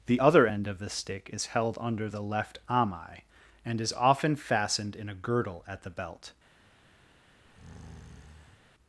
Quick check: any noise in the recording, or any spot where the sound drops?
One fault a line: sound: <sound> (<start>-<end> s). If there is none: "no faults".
sound: breath (7.4-8.6 s)